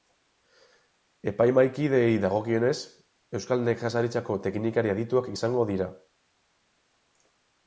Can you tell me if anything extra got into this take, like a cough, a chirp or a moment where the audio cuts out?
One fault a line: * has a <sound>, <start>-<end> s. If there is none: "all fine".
all fine